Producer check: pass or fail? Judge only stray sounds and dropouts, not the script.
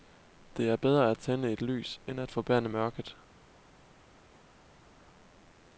pass